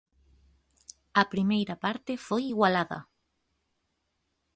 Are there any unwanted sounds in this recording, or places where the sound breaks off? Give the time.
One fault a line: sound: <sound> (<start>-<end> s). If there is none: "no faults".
no faults